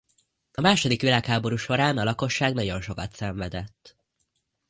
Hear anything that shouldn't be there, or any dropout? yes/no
no